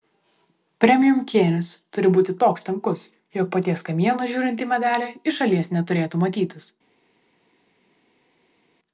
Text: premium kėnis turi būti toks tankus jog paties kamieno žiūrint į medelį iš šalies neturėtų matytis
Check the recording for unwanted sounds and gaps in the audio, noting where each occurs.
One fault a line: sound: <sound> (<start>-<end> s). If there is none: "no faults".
no faults